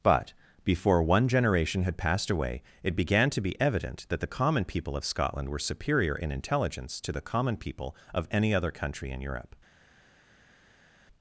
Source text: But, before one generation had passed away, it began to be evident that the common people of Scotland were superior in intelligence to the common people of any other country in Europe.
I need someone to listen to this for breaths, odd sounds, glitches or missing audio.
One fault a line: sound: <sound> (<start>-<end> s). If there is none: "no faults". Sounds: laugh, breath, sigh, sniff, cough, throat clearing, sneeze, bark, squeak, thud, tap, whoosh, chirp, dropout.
no faults